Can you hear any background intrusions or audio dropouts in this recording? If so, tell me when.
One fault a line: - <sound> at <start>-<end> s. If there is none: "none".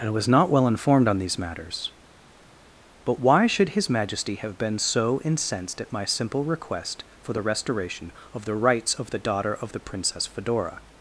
none